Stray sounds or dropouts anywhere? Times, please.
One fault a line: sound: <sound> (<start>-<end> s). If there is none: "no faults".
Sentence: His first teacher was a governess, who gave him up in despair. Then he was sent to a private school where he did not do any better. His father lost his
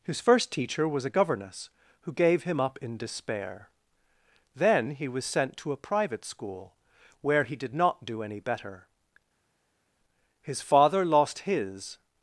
no faults